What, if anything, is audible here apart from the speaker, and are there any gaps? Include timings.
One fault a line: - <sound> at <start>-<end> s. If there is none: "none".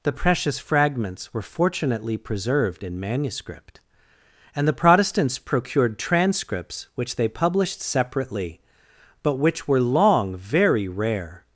none